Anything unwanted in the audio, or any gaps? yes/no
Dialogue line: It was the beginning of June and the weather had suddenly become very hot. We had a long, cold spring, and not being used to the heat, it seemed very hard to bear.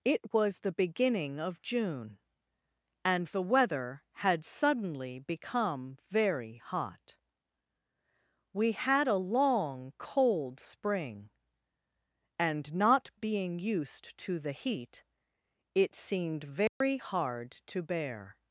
yes